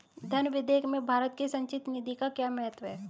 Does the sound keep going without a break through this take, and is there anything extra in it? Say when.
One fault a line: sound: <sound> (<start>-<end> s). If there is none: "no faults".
no faults